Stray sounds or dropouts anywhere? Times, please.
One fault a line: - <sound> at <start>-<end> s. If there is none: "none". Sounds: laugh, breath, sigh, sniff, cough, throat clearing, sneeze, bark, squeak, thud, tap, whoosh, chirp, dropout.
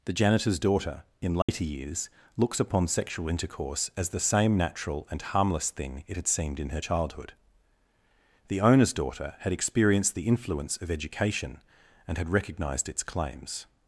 - dropout at 1.4-1.5 s